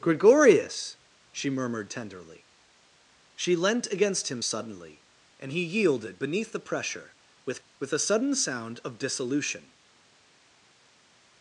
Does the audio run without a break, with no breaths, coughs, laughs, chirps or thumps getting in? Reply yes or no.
yes